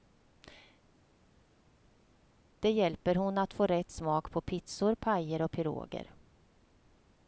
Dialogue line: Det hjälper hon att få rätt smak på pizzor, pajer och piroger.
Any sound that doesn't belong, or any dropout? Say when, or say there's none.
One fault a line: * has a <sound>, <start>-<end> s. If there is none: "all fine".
all fine